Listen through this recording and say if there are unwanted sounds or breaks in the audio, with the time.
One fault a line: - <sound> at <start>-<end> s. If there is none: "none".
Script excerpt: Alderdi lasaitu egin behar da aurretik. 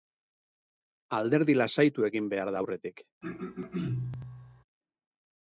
- throat clearing at 3.2-4.6 s